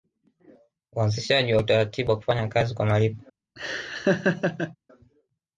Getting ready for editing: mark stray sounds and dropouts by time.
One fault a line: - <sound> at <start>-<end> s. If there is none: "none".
- laugh at 3.6-4.8 s